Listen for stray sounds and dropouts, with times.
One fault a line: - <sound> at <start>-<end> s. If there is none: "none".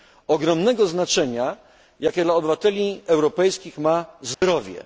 - dropout at 4.3-4.4 s